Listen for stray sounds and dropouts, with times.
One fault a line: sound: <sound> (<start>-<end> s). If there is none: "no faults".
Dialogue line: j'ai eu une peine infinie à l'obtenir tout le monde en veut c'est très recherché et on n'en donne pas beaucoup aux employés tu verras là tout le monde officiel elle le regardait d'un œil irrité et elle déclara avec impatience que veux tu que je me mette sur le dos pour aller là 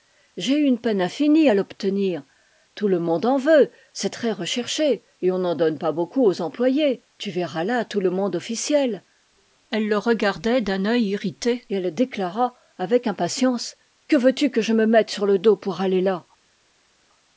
no faults